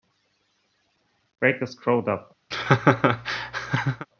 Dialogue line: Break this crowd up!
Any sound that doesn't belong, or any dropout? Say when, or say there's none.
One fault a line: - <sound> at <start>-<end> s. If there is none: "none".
- laugh at 2.5-4.1 s